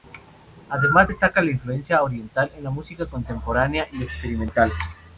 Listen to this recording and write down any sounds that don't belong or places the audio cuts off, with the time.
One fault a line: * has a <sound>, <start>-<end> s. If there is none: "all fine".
all fine